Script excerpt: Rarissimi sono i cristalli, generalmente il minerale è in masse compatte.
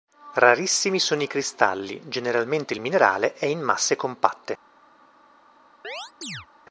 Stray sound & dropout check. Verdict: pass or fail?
fail